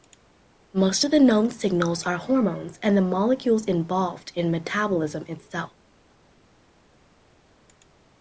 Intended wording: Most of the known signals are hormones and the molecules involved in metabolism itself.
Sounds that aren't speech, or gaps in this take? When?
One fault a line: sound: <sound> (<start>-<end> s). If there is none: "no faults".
no faults